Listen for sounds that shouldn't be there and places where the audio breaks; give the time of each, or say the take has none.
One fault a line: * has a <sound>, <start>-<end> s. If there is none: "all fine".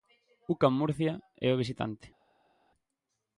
all fine